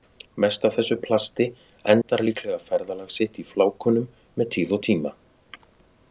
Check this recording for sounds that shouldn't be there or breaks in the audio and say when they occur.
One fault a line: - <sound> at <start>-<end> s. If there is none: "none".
none